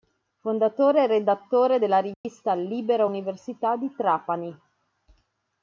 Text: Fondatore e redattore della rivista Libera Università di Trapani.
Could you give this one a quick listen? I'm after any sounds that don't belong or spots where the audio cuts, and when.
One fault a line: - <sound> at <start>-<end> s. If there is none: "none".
- dropout at 2.1-2.2 s